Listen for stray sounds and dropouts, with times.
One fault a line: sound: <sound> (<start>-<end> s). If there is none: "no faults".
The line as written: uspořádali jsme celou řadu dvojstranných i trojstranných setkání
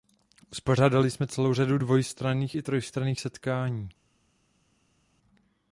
no faults